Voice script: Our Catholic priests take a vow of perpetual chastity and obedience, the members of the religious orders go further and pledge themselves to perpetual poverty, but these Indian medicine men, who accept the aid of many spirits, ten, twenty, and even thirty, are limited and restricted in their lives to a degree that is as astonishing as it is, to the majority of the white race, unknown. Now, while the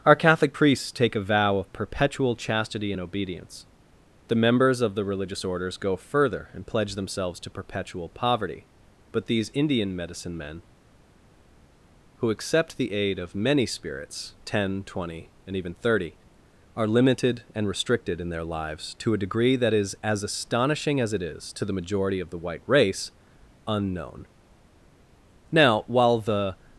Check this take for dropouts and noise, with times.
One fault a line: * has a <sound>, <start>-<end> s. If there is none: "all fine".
all fine